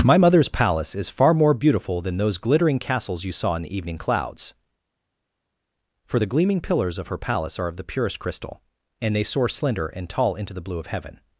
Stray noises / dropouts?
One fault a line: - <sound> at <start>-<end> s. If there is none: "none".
none